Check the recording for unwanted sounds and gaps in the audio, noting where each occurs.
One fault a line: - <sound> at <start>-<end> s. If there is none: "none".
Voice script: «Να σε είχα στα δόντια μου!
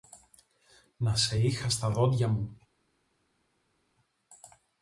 none